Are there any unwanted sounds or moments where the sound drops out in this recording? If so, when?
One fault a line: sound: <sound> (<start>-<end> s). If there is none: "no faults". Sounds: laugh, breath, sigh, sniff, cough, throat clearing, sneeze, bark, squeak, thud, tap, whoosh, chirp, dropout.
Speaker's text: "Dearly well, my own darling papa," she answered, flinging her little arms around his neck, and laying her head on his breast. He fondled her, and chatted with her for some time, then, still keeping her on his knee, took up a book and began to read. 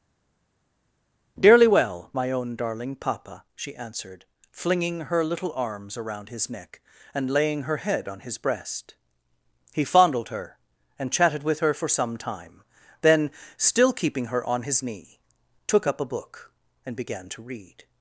no faults